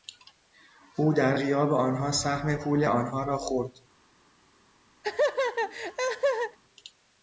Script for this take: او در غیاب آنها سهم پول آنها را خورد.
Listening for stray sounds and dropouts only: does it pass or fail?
fail